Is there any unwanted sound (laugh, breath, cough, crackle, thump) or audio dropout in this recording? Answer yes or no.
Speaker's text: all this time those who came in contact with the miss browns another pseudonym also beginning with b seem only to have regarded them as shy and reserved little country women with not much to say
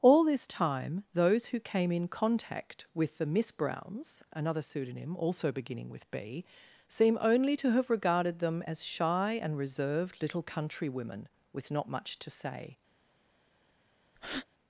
yes